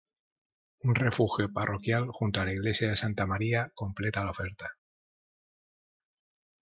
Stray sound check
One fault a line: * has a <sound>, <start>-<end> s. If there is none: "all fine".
all fine